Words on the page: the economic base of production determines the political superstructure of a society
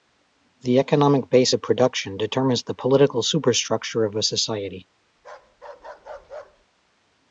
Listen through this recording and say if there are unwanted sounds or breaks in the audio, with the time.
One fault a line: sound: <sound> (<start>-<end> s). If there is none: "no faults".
sound: bark (5.2-6.7 s)